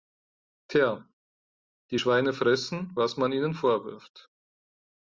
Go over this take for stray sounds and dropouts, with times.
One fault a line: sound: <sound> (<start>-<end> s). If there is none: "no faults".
no faults